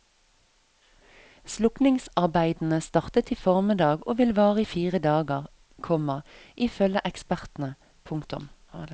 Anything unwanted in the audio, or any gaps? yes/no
no